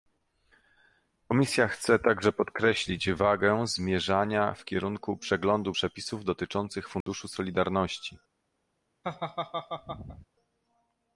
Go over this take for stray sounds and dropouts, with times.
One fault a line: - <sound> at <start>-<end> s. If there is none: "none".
- dropout at 7.0-7.1 s
- laugh at 9.0-10.3 s